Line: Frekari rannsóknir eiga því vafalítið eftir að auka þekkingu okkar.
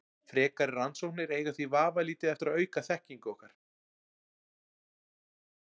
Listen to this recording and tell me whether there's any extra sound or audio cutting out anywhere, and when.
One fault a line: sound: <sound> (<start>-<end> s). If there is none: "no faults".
no faults